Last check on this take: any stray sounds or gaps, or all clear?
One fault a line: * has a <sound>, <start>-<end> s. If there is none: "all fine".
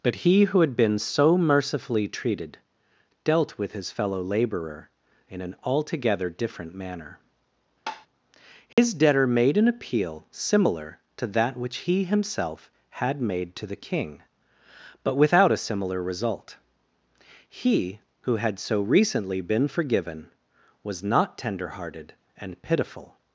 * has a tap, 7.9-8.1 s
* has a dropout, 8.7-8.8 s